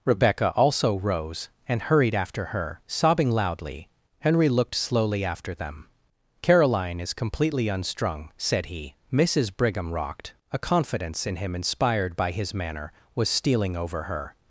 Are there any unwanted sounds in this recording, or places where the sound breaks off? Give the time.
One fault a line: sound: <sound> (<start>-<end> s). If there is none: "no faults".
no faults